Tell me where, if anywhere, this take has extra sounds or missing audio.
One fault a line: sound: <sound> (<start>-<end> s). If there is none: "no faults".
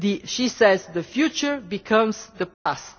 sound: dropout (2.5-2.7 s)